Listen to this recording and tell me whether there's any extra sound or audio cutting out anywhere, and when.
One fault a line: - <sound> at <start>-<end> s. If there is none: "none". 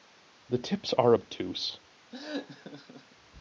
- laugh at 2.1-3.2 s